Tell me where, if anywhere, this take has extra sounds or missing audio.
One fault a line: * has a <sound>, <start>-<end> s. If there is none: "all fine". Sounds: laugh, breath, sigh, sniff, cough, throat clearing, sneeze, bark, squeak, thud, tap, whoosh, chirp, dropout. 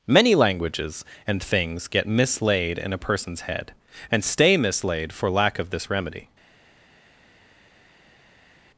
all fine